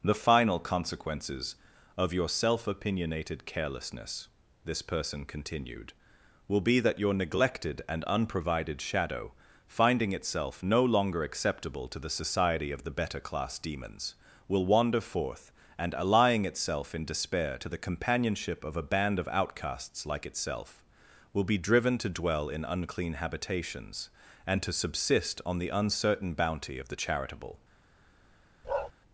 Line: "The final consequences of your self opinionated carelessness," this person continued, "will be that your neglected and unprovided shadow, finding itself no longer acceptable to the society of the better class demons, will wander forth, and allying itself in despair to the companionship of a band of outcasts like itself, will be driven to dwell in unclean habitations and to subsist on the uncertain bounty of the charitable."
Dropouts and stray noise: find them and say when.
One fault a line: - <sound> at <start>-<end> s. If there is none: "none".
- bark at 28.6-28.9 s